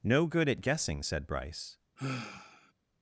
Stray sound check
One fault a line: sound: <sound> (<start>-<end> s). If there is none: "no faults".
sound: sigh (2.0-2.7 s)